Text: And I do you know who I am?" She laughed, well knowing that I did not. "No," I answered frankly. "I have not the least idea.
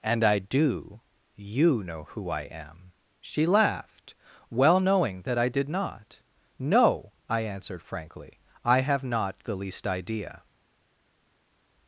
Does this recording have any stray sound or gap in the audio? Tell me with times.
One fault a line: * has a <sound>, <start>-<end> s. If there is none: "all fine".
all fine